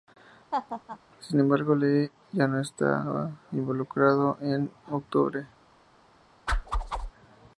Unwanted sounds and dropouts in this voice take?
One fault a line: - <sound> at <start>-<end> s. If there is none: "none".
- laugh at 0.5-1.0 s
- whoosh at 6.5-7.1 s